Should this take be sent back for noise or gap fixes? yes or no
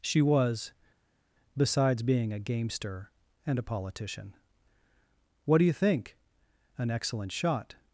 no